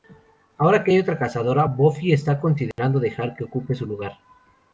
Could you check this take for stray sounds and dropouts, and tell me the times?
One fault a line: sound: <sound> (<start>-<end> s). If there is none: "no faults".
sound: dropout (2.7-2.8 s)